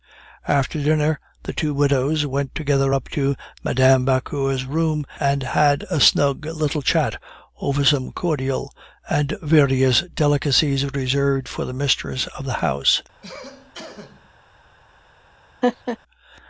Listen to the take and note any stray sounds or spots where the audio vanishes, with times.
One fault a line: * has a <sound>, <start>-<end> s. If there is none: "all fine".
* has a cough, 13.2-14.3 s
* has a laugh, 15.6-16.0 s